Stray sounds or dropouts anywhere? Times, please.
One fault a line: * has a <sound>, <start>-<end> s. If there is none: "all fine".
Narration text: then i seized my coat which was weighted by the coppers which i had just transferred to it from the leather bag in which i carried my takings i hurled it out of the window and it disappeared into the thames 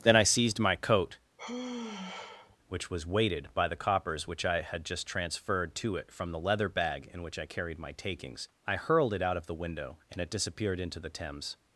* has a sigh, 1.4-2.6 s